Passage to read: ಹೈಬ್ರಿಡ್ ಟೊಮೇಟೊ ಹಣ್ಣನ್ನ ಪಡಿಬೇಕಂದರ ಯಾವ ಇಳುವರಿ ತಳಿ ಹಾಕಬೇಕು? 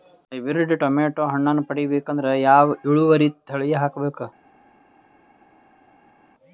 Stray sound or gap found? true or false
false